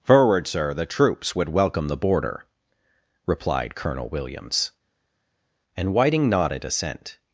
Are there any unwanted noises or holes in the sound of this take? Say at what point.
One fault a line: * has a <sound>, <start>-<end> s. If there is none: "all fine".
all fine